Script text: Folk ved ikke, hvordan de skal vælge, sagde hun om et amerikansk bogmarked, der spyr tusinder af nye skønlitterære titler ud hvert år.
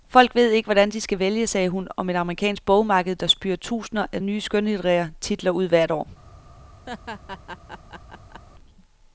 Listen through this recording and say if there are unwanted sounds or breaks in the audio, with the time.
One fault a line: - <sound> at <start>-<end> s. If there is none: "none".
- laugh at 6.9-8.4 s